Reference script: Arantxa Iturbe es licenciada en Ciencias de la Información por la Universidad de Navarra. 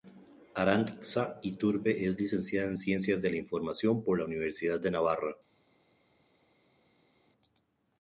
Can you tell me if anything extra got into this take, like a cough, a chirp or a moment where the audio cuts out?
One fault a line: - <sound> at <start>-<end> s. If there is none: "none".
none